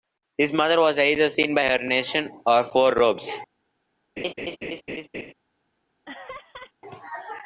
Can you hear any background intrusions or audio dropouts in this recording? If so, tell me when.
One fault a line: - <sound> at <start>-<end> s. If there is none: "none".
- laugh at 4.2-5.3 s
- laugh at 6.0-6.7 s